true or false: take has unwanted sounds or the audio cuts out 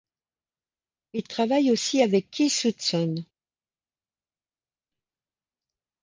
false